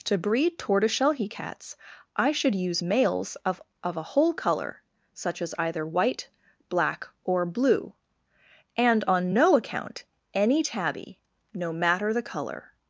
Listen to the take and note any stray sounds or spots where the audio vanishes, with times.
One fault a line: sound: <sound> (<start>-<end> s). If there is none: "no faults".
no faults